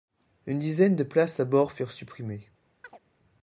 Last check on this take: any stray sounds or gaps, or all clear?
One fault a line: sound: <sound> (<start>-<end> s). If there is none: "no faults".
sound: chirp (2.8-3.0 s)